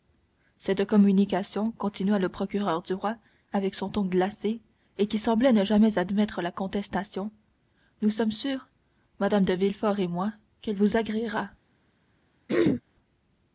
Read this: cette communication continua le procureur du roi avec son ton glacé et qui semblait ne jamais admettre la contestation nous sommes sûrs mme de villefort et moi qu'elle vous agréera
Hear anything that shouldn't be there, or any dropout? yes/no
yes